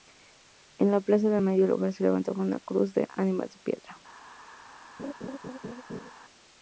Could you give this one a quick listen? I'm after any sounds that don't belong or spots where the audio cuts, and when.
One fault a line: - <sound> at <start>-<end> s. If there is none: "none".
- laugh at 5.0-6.1 s